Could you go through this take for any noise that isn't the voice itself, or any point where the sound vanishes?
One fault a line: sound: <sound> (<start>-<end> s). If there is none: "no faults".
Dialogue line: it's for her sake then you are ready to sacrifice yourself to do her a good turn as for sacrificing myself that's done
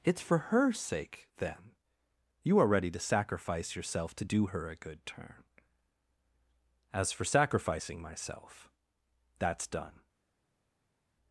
no faults